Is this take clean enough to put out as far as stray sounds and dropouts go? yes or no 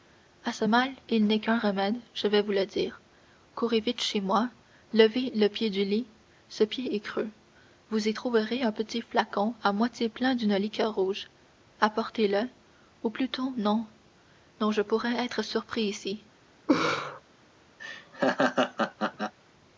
no